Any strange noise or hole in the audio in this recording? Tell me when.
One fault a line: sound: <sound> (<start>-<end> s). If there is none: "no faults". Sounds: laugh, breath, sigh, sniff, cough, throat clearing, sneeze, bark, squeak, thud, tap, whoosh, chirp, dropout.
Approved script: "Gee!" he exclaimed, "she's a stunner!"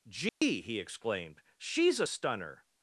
sound: dropout (0.3-0.4 s)